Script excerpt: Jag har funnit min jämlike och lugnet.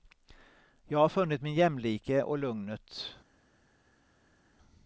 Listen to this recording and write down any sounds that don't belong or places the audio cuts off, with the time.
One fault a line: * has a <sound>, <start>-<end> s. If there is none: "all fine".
all fine